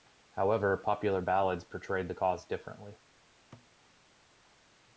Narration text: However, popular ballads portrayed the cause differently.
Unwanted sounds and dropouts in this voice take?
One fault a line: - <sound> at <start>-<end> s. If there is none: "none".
- thud at 3.5-3.7 s